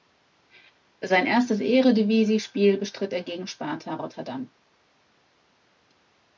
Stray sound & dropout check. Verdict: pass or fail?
pass